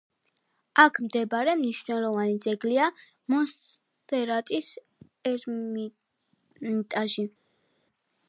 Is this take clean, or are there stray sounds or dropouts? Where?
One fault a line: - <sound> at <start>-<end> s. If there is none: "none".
none